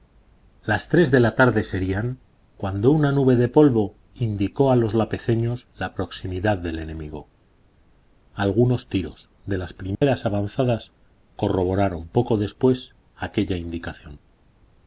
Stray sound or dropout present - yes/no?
yes